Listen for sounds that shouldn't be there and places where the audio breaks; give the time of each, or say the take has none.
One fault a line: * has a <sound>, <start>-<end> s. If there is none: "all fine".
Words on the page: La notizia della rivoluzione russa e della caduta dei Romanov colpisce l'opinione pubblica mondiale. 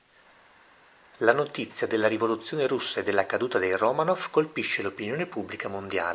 all fine